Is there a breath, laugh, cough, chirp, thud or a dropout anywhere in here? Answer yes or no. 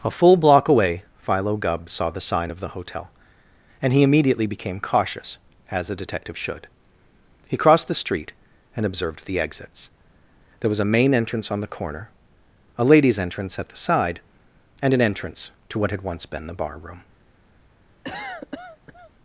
yes